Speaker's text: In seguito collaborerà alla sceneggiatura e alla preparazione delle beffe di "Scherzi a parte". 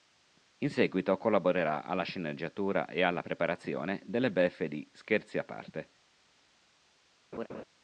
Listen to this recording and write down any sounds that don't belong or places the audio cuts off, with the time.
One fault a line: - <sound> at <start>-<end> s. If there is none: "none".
- laugh at 7.3-7.6 s